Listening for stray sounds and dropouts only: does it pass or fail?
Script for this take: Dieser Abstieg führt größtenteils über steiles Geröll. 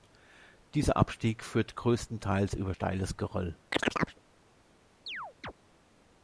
fail